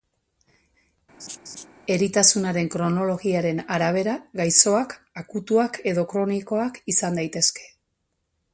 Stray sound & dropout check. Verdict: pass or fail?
fail